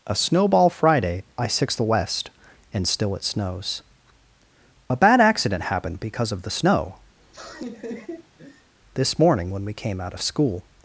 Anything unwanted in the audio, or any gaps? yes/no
yes